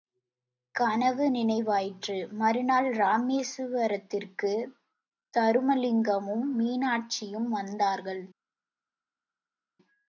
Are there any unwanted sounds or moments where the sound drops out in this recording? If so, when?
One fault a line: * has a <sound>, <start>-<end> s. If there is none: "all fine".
all fine